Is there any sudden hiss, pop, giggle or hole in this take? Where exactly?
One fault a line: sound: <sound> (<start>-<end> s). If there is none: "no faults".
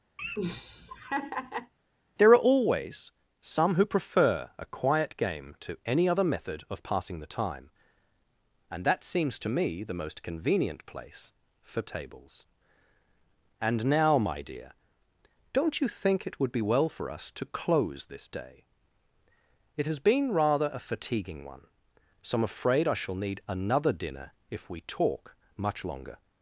sound: laugh (0.2-1.7 s)